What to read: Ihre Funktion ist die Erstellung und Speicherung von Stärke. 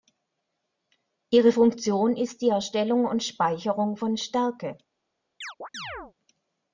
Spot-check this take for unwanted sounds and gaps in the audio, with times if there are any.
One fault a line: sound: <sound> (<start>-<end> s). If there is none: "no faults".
sound: chirp (5.4-6.1 s)